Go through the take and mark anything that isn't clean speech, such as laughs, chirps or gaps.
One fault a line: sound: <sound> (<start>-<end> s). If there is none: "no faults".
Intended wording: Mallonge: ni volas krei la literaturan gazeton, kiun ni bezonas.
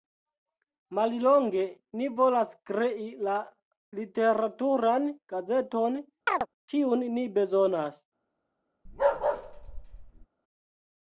sound: chirp (6.3-6.5 s)
sound: bark (8.9-10.3 s)